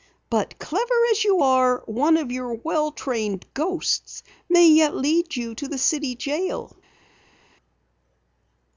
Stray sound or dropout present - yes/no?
no